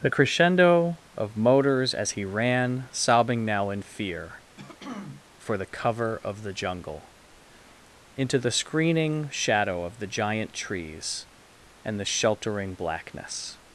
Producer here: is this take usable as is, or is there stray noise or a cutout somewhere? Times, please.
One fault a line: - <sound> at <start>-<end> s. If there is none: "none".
- throat clearing at 4.6-5.2 s